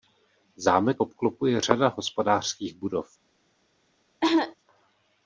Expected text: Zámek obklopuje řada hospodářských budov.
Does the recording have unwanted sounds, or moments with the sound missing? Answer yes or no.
yes